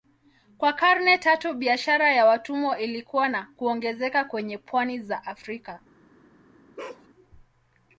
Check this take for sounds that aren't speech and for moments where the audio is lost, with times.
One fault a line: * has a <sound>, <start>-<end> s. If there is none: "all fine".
* has a bark, 6.8-7.1 s